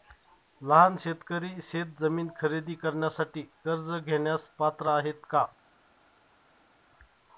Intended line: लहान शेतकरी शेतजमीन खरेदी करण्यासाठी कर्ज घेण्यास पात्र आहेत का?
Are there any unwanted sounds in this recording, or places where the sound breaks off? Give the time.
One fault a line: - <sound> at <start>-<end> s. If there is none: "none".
none